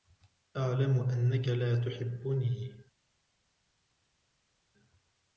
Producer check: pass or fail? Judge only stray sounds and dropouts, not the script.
pass